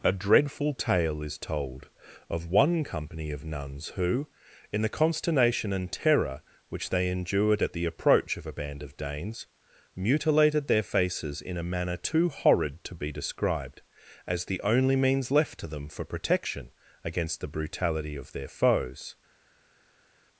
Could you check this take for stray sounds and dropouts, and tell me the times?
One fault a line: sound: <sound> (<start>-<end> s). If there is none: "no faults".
no faults